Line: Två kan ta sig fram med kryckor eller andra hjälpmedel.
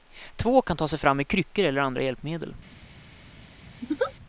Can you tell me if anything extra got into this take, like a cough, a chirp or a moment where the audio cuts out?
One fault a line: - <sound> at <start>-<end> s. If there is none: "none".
- laugh at 3.8-4.1 s